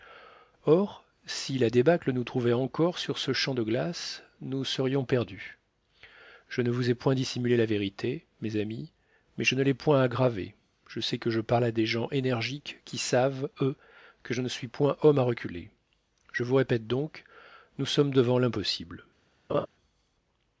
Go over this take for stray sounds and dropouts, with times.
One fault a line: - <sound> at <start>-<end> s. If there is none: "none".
- laugh at 19.5-19.7 s